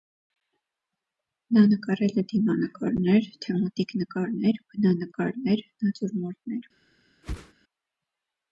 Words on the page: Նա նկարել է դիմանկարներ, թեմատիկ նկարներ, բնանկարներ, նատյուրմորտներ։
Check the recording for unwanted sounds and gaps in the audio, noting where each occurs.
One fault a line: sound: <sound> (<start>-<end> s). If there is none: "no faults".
sound: whoosh (7.2-7.5 s)